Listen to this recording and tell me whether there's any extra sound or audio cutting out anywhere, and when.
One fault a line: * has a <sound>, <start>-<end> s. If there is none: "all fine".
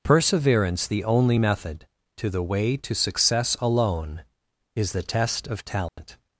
* has a dropout, 5.9-6.0 s